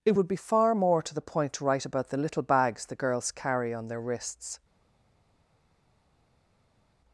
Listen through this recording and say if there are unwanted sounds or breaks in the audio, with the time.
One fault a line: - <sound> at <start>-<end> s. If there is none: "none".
none